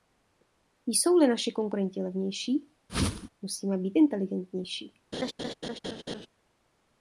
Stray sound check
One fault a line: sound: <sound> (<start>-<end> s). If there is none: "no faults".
sound: whoosh (2.9-3.3 s)
sound: laugh (5.1-6.3 s)